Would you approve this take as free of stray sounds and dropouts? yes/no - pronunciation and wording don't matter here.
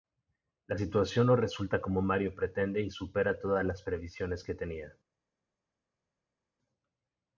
yes